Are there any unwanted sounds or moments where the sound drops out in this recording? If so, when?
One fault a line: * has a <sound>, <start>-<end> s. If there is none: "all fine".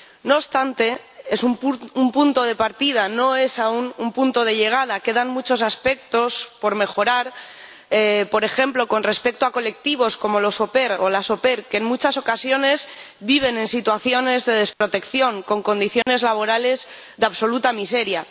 * has a dropout, 14.7-14.8 s
* has a dropout, 16.0-16.1 s